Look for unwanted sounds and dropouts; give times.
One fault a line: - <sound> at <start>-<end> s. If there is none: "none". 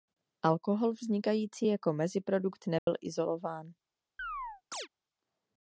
- dropout at 2.8-2.9 s
- chirp at 4.2-4.9 s